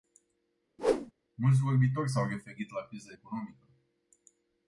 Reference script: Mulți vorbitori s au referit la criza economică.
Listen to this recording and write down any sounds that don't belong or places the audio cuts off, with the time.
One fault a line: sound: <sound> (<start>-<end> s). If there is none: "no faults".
sound: whoosh (0.8-1.1 s)